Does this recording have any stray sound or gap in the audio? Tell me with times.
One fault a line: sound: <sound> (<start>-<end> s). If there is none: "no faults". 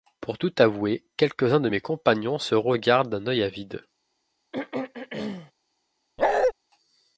sound: throat clearing (4.5-5.5 s)
sound: bark (6.2-6.5 s)